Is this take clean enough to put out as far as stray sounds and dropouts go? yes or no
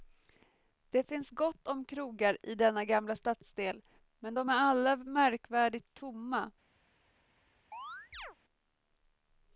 no